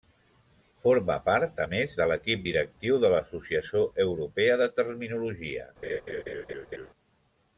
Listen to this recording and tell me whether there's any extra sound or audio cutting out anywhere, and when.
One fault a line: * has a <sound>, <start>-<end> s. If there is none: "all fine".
* has a laugh, 5.8-6.9 s